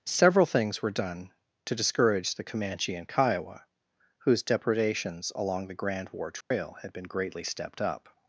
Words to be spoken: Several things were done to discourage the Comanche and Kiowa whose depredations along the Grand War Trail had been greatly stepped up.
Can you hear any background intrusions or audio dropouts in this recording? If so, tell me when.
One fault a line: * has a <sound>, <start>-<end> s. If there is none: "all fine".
* has a dropout, 6.4-6.5 s